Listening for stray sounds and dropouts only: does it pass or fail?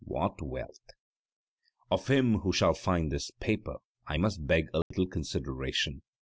fail